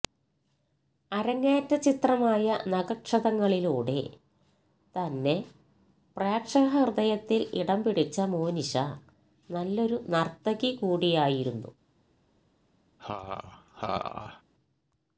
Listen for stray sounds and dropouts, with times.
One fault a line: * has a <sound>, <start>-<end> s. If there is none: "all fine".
* has a laugh, 13.0-14.4 s